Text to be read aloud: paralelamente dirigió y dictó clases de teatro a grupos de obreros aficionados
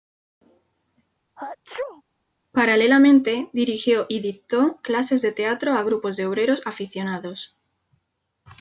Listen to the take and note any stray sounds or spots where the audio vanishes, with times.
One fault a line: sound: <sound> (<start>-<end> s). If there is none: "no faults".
sound: sneeze (1.4-2.0 s)